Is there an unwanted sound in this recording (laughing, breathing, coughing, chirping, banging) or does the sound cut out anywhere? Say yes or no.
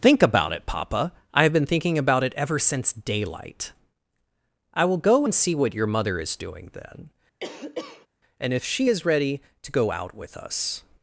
yes